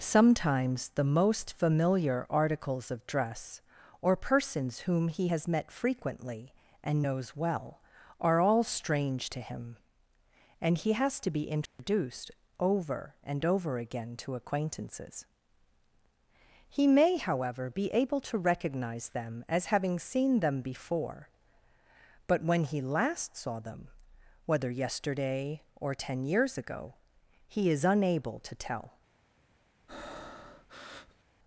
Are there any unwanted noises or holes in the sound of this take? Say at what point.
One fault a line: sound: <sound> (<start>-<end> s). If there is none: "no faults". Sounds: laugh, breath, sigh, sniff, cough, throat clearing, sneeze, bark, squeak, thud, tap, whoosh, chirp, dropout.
sound: dropout (11.7-11.8 s)
sound: breath (29.9-31.2 s)